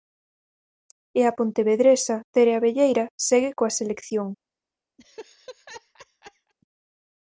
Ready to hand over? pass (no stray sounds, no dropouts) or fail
fail